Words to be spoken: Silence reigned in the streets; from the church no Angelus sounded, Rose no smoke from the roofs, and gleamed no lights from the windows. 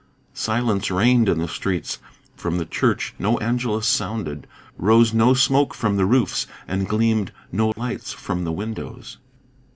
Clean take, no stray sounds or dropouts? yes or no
no